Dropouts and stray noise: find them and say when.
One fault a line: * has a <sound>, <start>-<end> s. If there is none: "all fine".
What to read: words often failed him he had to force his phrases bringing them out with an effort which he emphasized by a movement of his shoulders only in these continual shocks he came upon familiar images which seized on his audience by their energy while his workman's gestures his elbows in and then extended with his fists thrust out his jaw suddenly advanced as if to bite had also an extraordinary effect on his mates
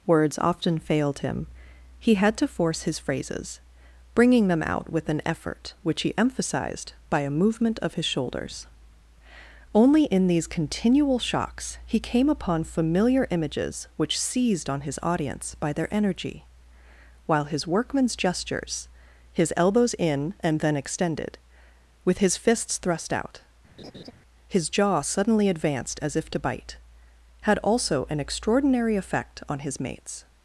* has a laugh, 23.8-24.1 s